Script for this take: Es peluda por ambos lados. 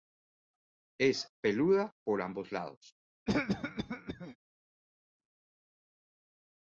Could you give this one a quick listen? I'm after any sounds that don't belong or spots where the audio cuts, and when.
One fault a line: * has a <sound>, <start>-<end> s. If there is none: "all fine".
* has a cough, 3.3-4.4 s